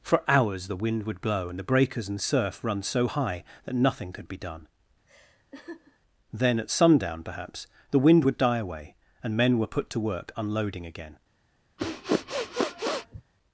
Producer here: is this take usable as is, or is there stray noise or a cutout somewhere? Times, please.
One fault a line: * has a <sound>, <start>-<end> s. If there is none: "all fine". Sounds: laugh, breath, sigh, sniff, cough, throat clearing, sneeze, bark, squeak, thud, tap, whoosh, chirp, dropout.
* has a laugh, 5.1-6.0 s
* has a sniff, 11.8-13.2 s